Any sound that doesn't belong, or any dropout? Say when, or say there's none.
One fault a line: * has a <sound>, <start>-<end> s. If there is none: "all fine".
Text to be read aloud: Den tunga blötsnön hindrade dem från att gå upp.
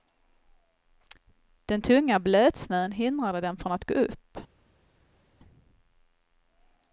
all fine